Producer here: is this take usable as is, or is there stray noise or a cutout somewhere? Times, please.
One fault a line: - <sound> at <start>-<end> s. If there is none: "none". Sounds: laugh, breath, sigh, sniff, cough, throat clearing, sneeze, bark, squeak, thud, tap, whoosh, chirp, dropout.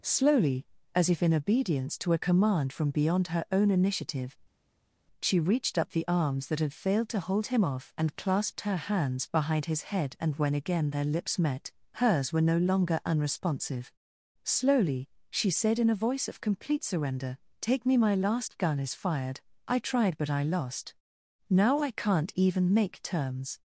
none